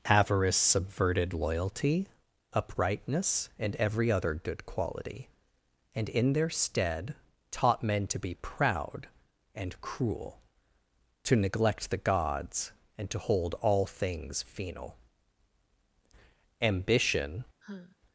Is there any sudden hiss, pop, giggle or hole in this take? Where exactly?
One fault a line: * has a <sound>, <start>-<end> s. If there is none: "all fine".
* has a sigh, 17.6-18.0 s